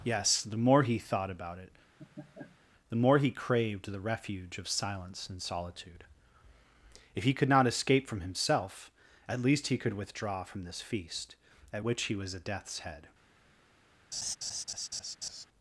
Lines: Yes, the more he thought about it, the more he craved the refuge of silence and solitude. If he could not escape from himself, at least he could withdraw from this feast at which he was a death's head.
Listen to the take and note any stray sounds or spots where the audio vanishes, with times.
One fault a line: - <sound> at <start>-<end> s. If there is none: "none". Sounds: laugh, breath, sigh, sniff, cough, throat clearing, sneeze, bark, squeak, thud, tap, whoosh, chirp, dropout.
- laugh at 2.0-2.6 s
- laugh at 14.1-15.5 s